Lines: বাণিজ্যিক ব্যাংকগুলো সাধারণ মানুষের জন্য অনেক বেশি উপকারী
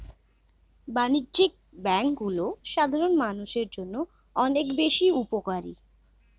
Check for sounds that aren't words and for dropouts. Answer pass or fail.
pass